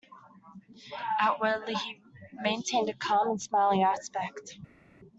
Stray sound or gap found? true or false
false